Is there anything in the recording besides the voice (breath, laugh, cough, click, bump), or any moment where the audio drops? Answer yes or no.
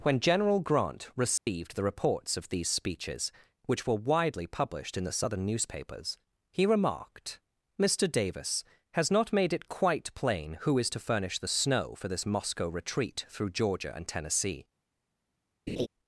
yes